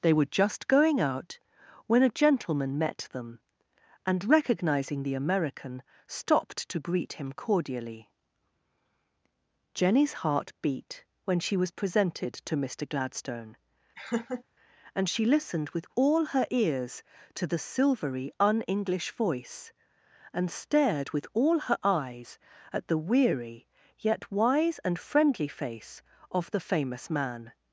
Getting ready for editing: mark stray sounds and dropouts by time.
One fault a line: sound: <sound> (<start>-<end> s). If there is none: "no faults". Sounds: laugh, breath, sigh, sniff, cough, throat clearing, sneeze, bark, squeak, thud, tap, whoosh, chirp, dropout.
sound: laugh (14.0-14.4 s)